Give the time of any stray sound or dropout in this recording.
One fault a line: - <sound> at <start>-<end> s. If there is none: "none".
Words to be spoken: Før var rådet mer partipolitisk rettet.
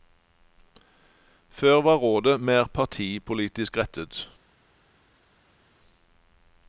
none